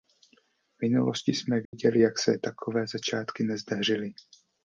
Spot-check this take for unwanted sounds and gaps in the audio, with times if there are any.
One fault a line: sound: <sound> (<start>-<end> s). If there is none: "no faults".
sound: dropout (1.6-1.7 s)